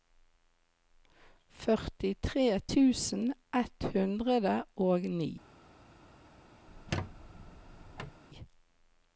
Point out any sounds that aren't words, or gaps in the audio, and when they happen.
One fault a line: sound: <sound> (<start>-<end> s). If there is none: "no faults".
sound: squeak (6.7-8.2 s)